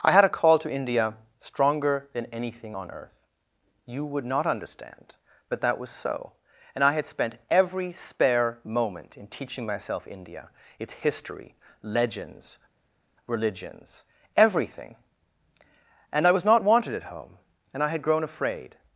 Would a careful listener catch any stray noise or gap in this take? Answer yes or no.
no